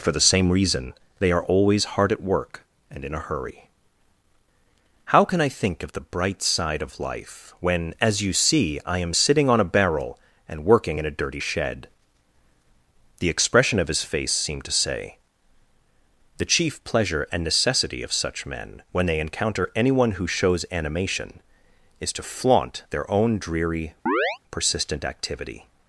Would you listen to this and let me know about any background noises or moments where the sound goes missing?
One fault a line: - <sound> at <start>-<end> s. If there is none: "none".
- chirp at 24.1-24.4 s